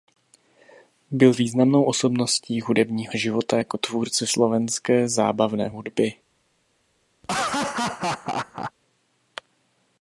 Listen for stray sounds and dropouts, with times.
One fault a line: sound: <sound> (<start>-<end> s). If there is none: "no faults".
sound: laugh (7.2-8.7 s)